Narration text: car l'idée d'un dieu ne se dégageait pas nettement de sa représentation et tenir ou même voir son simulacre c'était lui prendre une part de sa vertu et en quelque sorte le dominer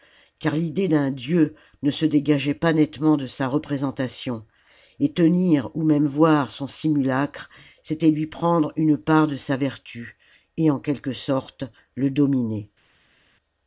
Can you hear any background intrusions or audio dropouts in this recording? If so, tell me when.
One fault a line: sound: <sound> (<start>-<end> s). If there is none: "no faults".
no faults